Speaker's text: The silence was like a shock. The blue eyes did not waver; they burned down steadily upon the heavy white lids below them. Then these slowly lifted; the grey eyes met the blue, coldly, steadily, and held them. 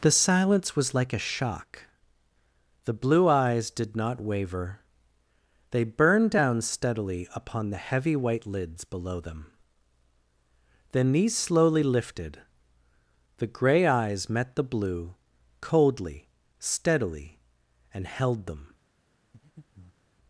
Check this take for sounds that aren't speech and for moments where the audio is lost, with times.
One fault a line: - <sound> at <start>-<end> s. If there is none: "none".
- breath at 19.3-20.1 s